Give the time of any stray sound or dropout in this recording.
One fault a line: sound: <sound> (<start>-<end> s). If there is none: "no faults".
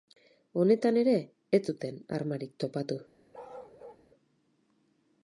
sound: bark (3.3-4.1 s)